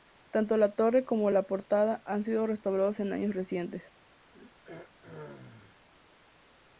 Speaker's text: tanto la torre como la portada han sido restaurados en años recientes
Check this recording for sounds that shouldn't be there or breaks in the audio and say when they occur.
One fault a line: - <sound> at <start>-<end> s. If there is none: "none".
- throat clearing at 4.3-5.9 s